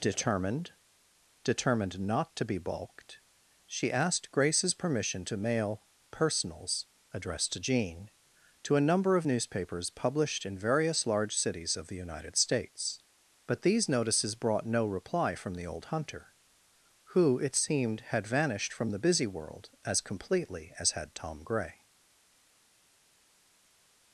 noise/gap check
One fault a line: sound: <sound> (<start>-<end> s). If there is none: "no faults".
no faults